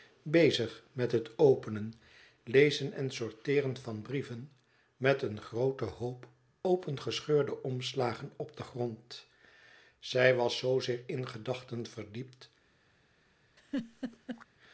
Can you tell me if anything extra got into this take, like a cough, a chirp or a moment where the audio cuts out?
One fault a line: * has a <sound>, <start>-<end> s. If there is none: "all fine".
* has a laugh, 13.6-14.5 s